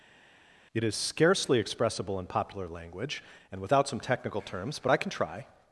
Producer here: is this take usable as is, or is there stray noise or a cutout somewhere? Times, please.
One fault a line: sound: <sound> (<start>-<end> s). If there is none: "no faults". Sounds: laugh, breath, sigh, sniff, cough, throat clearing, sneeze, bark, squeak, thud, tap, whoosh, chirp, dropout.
no faults